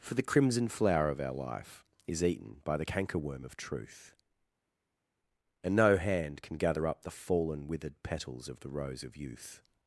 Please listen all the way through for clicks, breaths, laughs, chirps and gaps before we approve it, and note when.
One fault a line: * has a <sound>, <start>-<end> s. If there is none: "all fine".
all fine